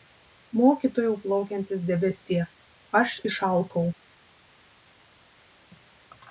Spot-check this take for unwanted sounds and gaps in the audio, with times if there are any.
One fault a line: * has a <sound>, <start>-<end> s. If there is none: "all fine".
all fine